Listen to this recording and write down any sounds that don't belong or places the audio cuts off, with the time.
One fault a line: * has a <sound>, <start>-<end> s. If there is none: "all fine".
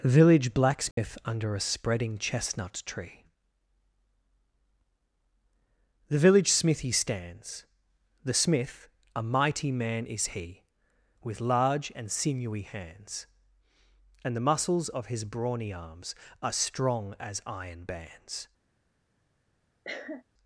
* has a dropout, 0.9-1.0 s
* has a cough, 19.8-20.2 s